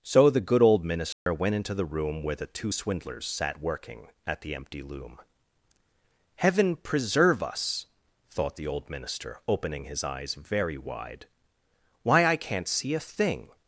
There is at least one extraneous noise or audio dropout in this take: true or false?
true